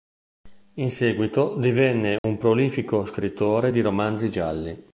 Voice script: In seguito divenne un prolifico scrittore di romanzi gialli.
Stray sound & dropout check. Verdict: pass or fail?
fail